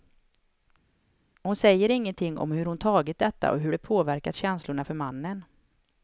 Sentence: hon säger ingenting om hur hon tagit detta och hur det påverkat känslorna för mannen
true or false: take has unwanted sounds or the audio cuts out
false